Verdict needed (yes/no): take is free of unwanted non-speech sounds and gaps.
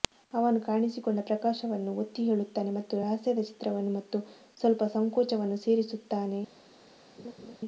no